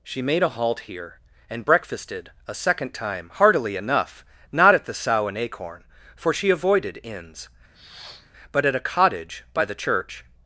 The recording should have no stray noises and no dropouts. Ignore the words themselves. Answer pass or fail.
fail